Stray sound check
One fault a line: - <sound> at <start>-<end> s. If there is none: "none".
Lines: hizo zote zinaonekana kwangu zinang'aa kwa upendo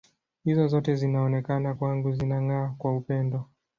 none